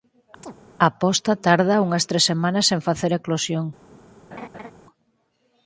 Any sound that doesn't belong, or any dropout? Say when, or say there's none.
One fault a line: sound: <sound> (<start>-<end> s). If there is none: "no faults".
sound: chirp (0.4-0.5 s)
sound: laugh (4.3-4.7 s)